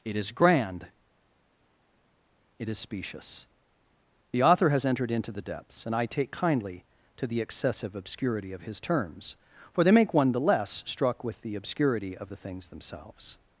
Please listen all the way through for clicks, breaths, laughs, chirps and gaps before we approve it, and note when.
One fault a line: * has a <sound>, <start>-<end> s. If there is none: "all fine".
all fine